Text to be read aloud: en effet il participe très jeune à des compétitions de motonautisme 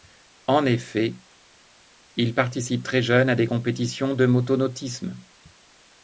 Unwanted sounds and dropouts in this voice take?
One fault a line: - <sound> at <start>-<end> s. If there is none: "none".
none